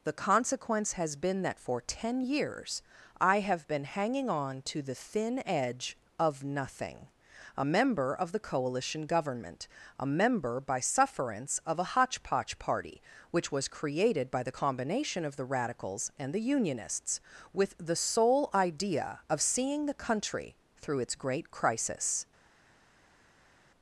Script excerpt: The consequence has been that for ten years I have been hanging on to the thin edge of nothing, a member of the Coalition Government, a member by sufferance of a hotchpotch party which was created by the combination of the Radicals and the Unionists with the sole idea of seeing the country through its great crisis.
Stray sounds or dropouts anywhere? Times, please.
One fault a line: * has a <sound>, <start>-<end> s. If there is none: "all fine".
all fine